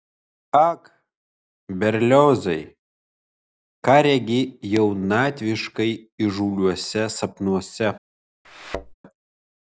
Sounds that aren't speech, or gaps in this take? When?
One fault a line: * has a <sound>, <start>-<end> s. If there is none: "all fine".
* has a thud, 8.4-8.9 s